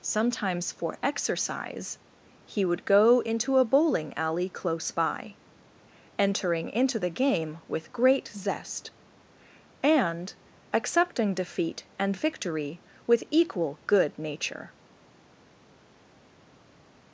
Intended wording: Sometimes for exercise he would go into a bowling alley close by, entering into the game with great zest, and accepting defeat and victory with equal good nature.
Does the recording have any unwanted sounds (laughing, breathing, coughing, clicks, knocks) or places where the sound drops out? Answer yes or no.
no